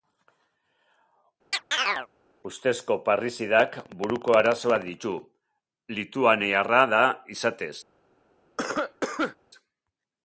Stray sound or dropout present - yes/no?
yes